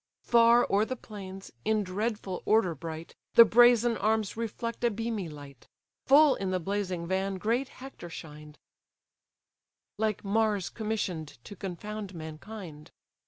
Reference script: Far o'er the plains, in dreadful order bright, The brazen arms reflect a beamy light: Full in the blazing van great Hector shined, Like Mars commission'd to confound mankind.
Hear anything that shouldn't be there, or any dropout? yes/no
no